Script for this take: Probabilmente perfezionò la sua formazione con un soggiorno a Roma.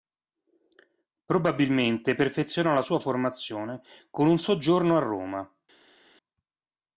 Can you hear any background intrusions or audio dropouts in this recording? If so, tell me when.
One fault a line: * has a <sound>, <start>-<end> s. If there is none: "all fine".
all fine